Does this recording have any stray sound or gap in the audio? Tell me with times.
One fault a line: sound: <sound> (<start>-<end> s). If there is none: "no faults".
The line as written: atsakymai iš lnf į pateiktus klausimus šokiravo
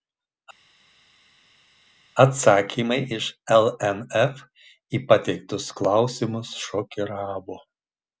no faults